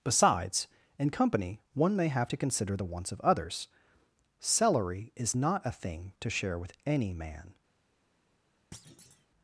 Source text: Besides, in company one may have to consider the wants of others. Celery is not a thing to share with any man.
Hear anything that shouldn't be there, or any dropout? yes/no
yes